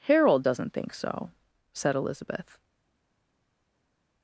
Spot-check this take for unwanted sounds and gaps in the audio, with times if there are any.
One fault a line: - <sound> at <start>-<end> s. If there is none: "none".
none